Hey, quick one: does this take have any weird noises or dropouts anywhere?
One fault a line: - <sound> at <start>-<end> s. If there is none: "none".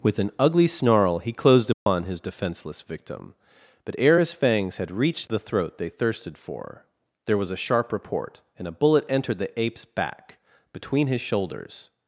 - dropout at 1.7-1.9 s